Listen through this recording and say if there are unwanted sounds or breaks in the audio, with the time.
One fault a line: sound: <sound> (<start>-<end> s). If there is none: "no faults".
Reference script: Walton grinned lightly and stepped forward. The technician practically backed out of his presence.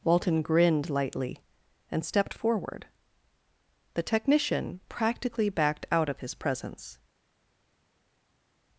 no faults